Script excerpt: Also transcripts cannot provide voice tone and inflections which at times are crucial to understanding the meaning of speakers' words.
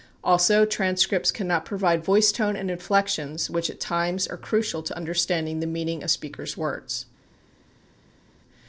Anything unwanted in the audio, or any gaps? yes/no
no